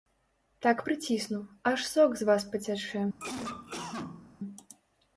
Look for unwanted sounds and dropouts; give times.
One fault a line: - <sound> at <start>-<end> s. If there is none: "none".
- cough at 3.2-4.3 s